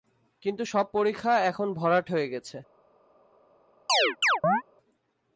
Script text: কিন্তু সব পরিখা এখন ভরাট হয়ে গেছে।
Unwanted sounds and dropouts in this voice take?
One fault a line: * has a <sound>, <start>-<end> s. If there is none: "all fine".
* has a chirp, 3.9-4.6 s